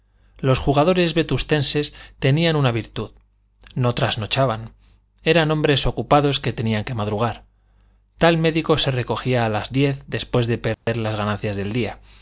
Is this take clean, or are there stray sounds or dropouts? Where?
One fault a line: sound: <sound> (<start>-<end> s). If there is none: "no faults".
sound: dropout (10.7-10.9 s)